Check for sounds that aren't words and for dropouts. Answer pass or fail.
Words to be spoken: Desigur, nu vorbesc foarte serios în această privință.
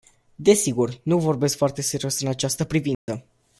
fail